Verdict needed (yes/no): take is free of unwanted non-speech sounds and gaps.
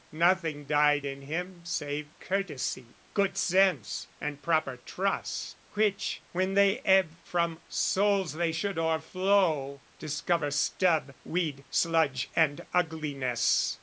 yes